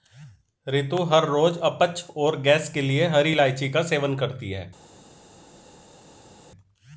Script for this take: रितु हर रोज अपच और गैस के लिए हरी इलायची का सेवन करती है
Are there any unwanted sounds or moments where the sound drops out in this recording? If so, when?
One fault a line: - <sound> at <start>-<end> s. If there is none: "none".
none